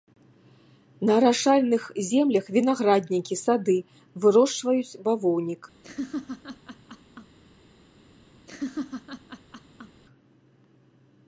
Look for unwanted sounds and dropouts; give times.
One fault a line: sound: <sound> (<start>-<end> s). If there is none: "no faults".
sound: laugh (5.8-7.4 s)
sound: laugh (8.5-10.0 s)